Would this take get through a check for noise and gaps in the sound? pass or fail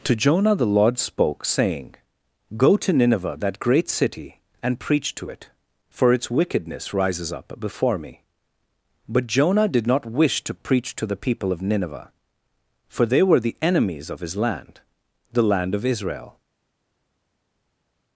pass